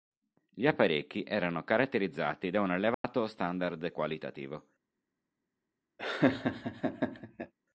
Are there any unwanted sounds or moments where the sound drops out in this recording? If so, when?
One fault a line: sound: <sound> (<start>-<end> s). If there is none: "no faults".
sound: dropout (2.9-3.0 s)
sound: laugh (6.0-7.5 s)